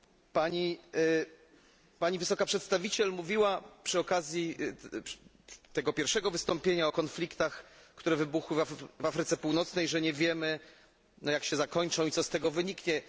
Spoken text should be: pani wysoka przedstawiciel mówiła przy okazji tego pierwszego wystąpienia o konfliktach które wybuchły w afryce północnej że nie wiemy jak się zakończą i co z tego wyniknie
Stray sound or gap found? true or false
false